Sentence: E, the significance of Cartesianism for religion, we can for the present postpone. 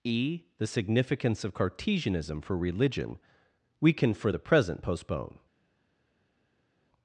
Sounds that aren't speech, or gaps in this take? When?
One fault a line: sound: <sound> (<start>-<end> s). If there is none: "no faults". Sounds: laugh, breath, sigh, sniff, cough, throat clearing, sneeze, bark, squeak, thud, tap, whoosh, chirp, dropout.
no faults